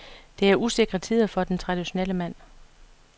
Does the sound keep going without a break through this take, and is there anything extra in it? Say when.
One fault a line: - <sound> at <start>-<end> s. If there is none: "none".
none